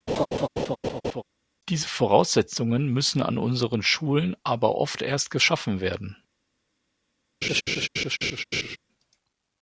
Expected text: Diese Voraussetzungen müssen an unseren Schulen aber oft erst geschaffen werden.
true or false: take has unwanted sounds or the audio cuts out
true